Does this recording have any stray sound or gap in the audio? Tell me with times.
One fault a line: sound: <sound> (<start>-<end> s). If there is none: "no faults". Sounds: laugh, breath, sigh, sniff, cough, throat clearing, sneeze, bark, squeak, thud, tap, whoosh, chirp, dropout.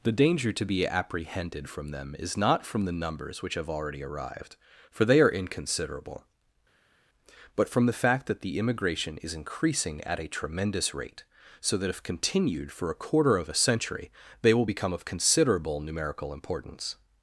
no faults